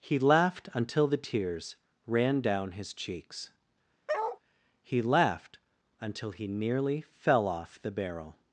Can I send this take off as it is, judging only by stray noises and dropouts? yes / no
no